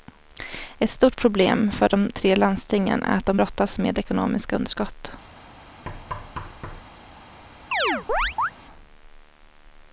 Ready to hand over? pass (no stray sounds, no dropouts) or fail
fail